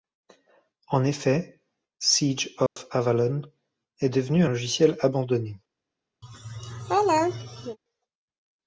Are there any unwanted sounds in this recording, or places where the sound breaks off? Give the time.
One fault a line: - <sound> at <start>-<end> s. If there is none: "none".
- dropout at 2.7-2.8 s
- laugh at 6.2-7.8 s